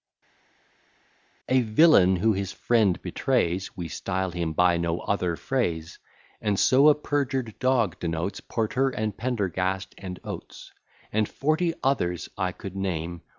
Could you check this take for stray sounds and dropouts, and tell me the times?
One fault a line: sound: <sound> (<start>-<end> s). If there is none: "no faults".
no faults